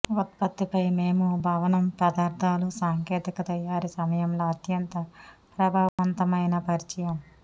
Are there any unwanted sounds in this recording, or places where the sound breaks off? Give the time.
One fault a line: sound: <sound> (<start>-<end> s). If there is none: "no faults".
sound: dropout (5.9-6.0 s)